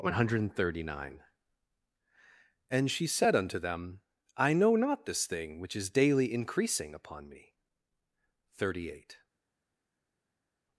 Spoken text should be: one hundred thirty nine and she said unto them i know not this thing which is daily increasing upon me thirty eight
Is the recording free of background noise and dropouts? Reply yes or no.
yes